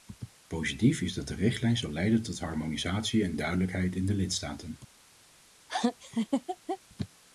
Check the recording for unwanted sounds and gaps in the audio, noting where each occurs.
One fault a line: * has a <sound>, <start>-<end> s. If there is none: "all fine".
* has a laugh, 5.7-6.8 s